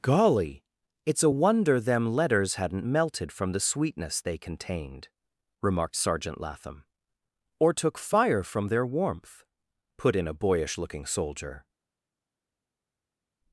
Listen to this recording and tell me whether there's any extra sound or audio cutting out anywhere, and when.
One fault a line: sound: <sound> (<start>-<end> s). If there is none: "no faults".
no faults